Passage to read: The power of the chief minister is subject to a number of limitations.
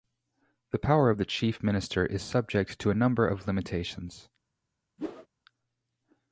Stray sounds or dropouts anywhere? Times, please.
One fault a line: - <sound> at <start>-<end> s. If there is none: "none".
- whoosh at 5.0-5.3 s